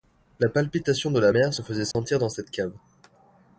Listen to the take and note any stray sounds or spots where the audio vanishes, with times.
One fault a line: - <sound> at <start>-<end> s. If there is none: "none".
- dropout at 1.9-1.9 s